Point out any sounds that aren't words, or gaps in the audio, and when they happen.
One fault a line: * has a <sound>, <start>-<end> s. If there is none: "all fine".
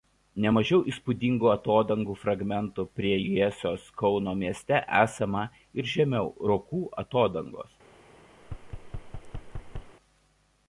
* has a thud, 8.4-10.0 s